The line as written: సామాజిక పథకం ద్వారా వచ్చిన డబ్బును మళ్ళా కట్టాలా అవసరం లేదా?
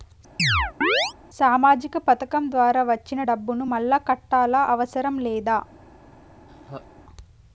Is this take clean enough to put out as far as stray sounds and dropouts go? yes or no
no